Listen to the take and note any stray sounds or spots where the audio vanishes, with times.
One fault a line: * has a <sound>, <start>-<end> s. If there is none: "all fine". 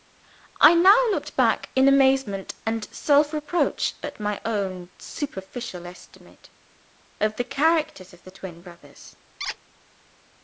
* has a squeak, 9.4-9.6 s